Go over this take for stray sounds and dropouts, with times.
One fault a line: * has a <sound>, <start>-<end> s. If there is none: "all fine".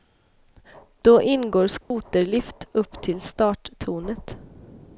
* has a dropout, 1.8-1.9 s